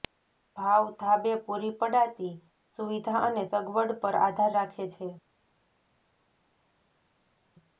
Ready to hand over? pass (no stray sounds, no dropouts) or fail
pass